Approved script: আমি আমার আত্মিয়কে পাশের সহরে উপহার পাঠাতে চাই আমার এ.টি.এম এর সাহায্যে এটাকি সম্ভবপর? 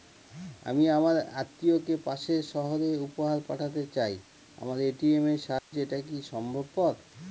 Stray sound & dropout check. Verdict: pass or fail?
fail